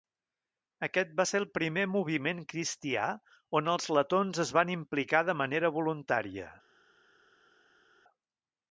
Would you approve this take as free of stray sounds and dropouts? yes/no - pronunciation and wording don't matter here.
yes